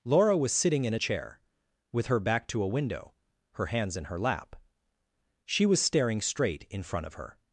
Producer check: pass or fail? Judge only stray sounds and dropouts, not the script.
pass